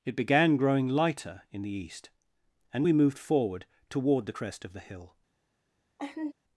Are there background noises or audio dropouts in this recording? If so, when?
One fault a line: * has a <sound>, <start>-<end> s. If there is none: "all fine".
* has a laugh, 6.0-6.3 s